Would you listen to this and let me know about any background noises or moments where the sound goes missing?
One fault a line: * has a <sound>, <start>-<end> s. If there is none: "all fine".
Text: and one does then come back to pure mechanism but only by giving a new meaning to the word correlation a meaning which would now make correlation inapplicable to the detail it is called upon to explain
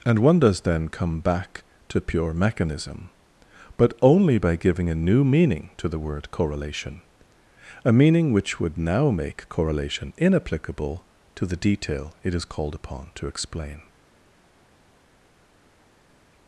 all fine